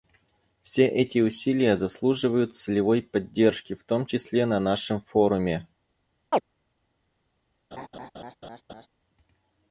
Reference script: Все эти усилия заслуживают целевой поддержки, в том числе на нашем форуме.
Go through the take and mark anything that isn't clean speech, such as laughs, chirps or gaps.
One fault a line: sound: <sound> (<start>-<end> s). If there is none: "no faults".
sound: chirp (6.3-6.4 s)
sound: laugh (7.7-8.9 s)